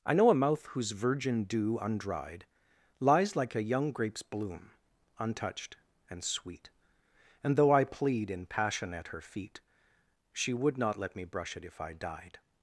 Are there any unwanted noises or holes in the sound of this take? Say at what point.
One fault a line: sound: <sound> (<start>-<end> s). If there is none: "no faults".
no faults